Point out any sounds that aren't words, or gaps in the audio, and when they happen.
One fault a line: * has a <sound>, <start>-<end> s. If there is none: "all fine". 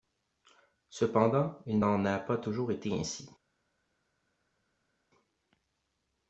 all fine